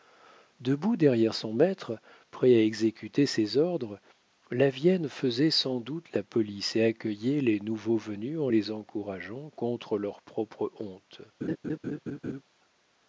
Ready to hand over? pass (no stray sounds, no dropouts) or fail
fail